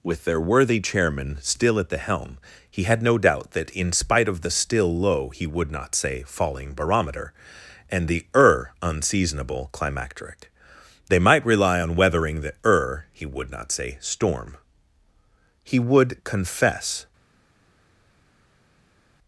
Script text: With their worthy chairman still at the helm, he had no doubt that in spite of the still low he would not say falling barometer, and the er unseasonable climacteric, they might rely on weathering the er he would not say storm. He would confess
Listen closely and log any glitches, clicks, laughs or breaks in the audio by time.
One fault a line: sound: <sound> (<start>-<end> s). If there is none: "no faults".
no faults